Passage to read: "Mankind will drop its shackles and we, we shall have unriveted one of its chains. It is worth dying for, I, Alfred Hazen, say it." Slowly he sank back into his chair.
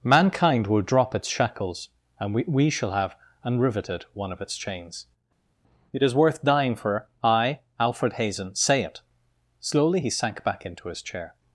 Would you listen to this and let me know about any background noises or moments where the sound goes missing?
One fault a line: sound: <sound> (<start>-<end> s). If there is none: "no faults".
no faults